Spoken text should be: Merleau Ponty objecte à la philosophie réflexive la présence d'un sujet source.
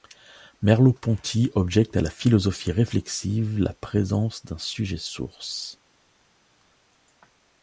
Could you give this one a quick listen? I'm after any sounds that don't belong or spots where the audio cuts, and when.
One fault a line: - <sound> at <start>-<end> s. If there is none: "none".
none